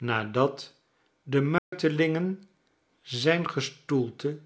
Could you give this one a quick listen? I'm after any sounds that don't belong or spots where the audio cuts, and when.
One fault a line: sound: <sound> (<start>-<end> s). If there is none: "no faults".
sound: dropout (1.6-1.7 s)